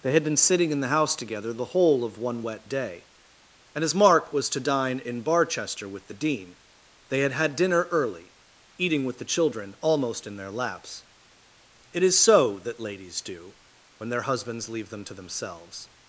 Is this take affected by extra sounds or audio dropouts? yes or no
no